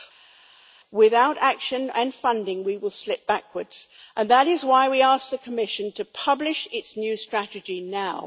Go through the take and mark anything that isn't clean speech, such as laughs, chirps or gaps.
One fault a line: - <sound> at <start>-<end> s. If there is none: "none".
none